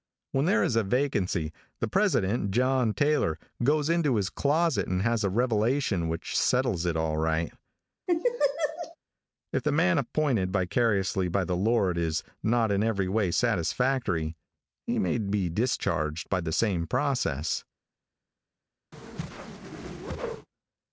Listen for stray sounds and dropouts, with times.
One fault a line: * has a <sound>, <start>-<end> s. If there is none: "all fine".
* has a laugh, 8.1-9.0 s
* has a whoosh, 18.9-20.5 s